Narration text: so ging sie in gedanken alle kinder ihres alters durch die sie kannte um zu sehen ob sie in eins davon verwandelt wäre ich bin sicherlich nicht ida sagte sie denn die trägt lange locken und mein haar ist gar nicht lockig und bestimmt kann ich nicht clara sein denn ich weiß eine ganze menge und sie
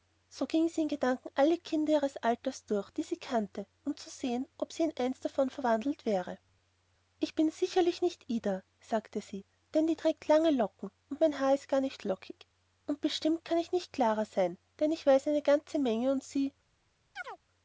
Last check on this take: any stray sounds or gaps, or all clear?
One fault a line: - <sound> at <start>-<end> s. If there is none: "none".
- chirp at 17.2-17.4 s